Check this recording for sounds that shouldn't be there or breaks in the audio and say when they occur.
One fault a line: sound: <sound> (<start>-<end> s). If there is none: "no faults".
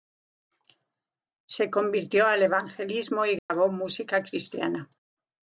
sound: dropout (3.4-3.5 s)